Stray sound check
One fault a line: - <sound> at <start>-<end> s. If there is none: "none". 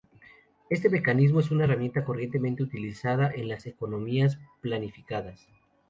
none